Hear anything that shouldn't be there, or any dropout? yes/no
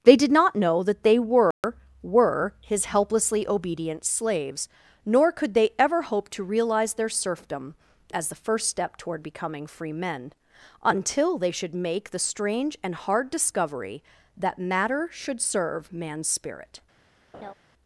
yes